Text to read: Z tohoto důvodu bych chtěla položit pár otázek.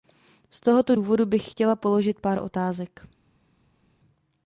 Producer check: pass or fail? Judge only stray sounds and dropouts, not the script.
pass